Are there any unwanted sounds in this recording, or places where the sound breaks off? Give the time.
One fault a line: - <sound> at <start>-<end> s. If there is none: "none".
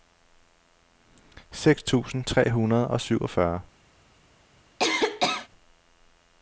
- cough at 4.8-5.5 s